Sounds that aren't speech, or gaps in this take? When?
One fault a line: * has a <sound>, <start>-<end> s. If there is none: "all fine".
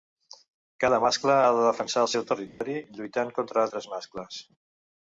* has a dropout, 2.5-2.6 s